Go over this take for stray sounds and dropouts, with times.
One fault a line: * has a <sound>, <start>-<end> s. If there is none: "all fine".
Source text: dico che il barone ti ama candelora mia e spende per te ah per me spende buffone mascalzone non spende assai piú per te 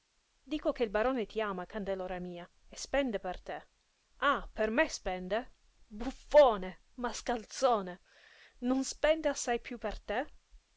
all fine